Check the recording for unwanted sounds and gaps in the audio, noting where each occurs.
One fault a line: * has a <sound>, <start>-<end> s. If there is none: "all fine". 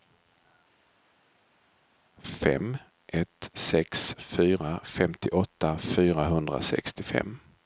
all fine